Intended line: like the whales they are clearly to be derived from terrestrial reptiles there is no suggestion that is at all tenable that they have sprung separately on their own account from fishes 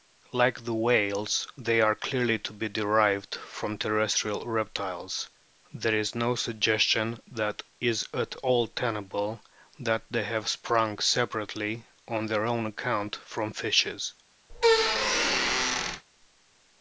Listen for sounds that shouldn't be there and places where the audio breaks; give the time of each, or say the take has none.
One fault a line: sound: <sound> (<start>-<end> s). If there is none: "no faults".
sound: squeak (14.5-16.0 s)